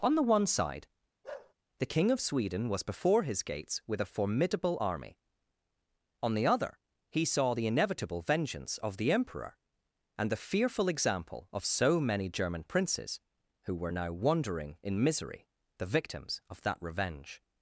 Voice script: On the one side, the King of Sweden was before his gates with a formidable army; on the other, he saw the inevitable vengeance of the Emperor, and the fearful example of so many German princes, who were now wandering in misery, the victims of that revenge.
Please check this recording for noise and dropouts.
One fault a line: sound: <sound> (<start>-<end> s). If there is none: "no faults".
sound: bark (1.2-1.5 s)